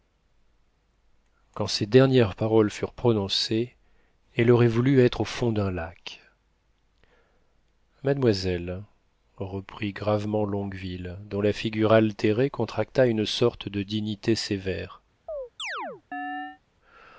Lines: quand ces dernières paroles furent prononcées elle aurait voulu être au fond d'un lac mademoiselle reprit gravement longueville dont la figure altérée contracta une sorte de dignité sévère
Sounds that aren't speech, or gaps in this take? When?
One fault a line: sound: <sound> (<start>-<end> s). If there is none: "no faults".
sound: chirp (15.3-16.6 s)